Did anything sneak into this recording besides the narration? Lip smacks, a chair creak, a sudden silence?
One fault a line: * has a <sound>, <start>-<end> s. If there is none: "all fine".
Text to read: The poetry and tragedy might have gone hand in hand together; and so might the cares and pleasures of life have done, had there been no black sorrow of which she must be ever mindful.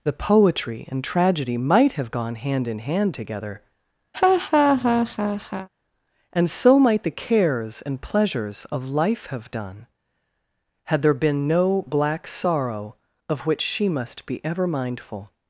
* has a laugh, 4.1-5.7 s